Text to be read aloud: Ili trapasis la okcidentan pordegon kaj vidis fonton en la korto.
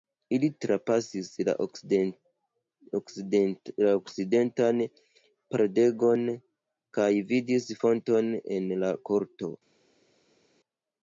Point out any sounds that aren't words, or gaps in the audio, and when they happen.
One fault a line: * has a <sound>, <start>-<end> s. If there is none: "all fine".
all fine